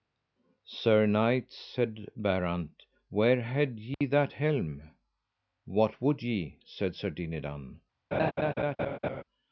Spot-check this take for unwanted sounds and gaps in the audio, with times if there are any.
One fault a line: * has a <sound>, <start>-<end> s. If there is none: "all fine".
* has a dropout, 3.9-4.0 s
* has a laugh, 8.1-9.2 s